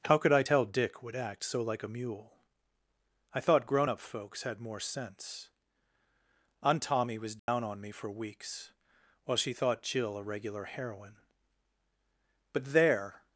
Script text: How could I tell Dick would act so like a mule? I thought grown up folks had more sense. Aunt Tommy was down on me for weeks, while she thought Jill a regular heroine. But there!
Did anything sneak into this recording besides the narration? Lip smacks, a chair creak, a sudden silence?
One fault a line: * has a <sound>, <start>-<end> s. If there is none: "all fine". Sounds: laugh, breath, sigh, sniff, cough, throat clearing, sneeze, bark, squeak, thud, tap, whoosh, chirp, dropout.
* has a dropout, 7.4-7.5 s